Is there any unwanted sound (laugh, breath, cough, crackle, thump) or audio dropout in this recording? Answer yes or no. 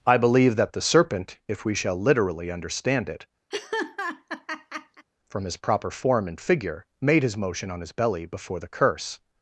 yes